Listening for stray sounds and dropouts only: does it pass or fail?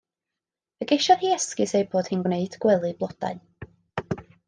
pass